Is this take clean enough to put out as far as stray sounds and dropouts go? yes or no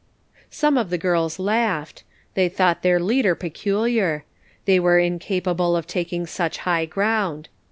yes